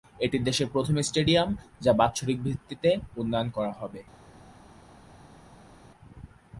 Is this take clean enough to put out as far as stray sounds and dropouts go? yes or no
yes